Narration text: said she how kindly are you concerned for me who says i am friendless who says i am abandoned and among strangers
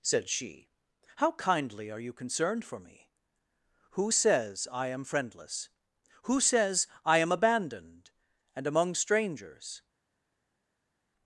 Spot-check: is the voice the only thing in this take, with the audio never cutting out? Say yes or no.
yes